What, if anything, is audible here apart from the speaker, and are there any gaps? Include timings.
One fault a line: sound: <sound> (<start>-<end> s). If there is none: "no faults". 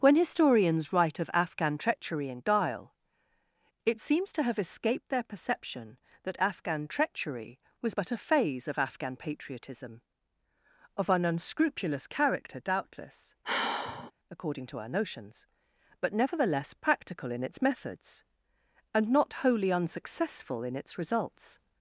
sound: sigh (13.4-14.1 s)